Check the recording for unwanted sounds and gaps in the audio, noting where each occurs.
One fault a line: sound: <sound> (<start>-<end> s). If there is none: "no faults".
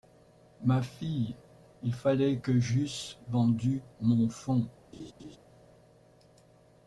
sound: laugh (4.9-5.4 s)